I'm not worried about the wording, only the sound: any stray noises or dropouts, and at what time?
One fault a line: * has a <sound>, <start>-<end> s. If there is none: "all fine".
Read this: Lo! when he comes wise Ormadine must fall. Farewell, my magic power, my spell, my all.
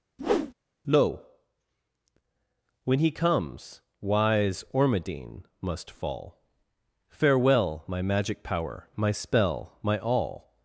* has a whoosh, 0.2-0.5 s